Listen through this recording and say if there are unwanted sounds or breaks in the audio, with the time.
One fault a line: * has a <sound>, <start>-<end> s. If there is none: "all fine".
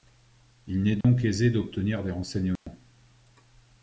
* has a dropout, 1.0-1.0 s
* has a dropout, 2.6-2.7 s